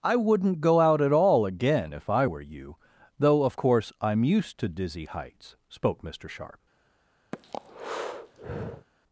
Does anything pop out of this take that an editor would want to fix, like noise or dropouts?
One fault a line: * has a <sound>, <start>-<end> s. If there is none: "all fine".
* has a breath, 7.3-8.9 s